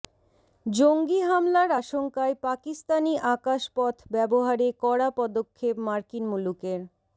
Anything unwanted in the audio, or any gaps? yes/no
no